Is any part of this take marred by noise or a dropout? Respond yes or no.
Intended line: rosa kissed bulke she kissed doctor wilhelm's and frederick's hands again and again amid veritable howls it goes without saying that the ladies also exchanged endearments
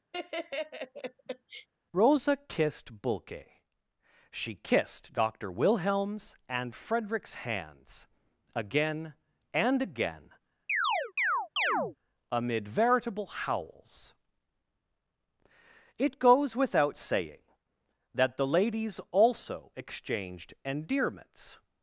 yes